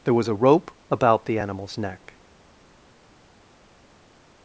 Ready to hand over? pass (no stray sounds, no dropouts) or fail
pass